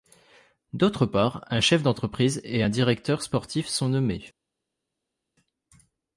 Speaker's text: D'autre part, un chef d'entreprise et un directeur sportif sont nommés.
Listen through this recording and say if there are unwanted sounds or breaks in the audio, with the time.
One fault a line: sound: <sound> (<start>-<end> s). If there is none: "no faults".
no faults